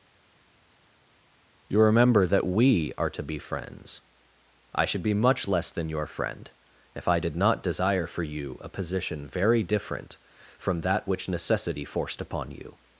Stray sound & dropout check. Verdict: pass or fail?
pass